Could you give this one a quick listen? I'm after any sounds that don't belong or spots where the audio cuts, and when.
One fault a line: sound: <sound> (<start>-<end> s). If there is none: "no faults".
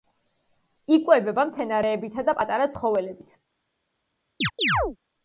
sound: chirp (4.4-5.0 s)